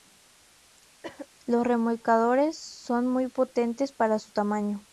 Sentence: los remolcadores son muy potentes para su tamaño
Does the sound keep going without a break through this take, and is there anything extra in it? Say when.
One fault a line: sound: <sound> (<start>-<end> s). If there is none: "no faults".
sound: cough (1.0-1.3 s)